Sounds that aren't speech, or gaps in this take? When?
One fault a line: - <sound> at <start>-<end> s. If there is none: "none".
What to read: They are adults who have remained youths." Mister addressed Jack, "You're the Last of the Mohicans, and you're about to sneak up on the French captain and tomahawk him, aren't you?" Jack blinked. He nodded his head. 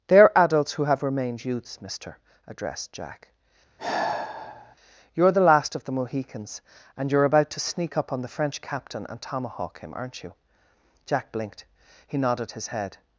- sigh at 3.8-4.8 s